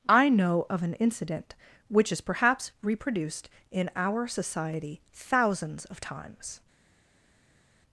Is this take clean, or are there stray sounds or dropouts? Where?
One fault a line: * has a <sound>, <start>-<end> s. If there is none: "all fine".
all fine